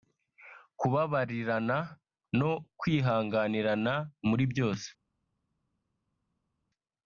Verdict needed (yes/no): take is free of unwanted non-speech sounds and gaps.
yes